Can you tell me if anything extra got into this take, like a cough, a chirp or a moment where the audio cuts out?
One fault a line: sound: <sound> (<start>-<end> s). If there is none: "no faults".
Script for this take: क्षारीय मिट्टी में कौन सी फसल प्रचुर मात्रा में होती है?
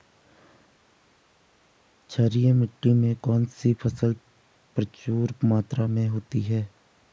no faults